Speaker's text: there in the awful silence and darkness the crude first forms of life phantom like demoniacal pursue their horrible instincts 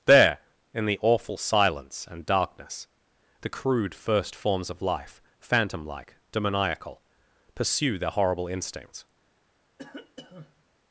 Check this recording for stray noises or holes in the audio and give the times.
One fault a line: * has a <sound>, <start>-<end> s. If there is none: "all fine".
* has a cough, 9.8-10.6 s